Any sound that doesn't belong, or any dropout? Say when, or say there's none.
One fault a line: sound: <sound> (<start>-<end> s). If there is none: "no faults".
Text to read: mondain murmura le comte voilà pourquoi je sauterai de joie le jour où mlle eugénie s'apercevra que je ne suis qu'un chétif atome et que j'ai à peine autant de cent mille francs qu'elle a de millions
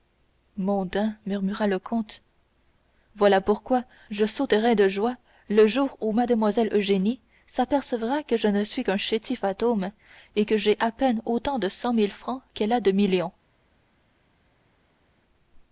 no faults